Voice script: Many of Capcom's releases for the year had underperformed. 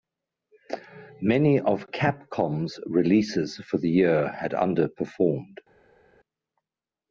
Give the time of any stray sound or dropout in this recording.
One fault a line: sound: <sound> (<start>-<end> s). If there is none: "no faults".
no faults